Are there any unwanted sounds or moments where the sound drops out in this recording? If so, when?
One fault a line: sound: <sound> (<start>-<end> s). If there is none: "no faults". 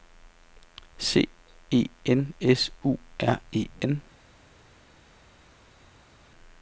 no faults